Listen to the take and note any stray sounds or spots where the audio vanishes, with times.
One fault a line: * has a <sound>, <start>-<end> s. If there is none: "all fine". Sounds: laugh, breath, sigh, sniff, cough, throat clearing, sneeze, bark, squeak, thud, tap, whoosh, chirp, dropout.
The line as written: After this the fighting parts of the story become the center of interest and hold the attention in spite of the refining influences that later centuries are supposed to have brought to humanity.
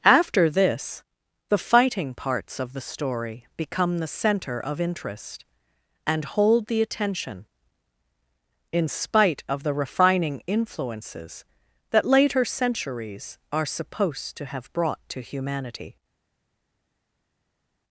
all fine